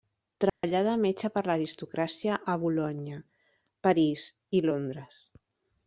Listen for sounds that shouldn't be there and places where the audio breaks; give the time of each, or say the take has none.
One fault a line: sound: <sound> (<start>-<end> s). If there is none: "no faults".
sound: dropout (0.5-0.6 s)